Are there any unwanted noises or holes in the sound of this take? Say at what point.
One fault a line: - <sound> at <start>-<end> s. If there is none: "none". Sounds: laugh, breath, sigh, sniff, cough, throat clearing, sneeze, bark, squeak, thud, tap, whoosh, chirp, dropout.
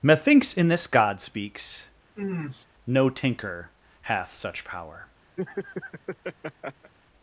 - sniff at 2.2-2.7 s
- laugh at 5.4-6.9 s